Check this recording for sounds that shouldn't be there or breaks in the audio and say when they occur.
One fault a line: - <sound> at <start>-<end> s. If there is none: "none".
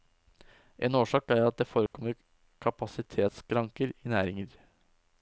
- dropout at 1.9-1.9 s